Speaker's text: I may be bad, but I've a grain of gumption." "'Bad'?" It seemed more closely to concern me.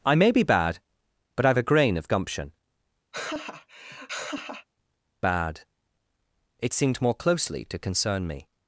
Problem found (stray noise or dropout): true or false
true